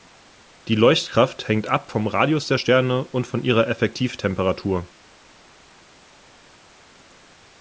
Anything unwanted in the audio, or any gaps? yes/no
no